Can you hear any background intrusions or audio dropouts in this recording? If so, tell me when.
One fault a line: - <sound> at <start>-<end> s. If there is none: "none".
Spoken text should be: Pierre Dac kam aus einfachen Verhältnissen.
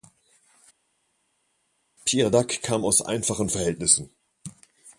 none